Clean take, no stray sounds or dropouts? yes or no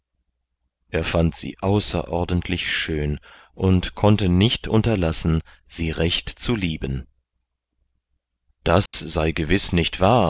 no